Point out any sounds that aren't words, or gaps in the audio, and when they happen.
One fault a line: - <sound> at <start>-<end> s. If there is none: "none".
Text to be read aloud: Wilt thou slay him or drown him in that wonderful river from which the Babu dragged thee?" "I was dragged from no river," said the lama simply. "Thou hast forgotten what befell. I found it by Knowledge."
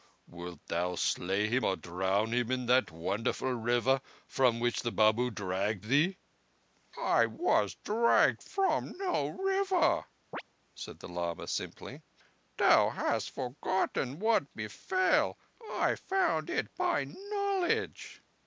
- chirp at 10.3-10.4 s